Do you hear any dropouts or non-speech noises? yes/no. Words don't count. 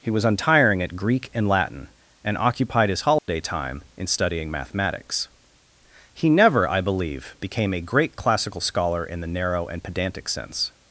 yes